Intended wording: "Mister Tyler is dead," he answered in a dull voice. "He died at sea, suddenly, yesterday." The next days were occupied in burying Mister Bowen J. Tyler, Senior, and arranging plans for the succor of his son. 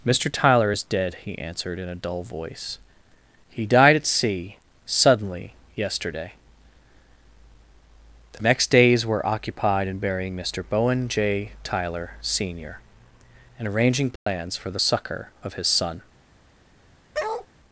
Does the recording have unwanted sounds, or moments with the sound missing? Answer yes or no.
yes